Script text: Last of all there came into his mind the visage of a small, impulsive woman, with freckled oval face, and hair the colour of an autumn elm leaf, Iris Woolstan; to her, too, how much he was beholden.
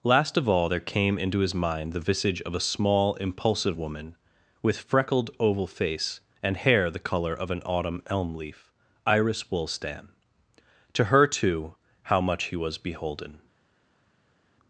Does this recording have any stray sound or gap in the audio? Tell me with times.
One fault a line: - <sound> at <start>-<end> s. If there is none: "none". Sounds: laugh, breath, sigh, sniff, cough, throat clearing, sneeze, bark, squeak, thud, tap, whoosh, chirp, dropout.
none